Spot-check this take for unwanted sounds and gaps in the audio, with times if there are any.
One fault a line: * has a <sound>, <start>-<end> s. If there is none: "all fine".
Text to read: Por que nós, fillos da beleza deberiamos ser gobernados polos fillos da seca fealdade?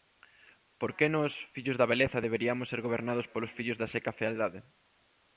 all fine